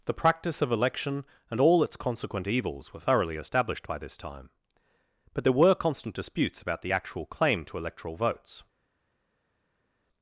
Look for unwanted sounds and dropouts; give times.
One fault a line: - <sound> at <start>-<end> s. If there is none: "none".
none